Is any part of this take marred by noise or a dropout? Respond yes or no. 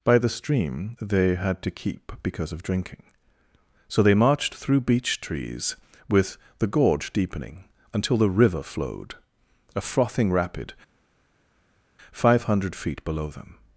no